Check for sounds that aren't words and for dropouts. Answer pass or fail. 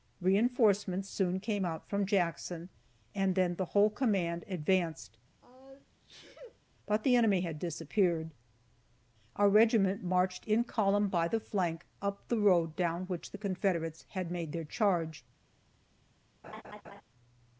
fail